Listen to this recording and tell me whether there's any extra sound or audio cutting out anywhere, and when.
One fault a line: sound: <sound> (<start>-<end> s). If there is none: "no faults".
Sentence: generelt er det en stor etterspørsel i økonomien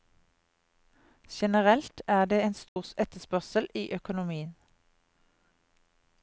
sound: dropout (2.7-2.8 s)